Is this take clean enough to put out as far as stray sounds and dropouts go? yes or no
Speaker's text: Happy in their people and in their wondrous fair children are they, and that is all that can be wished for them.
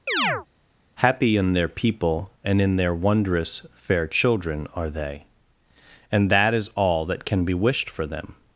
no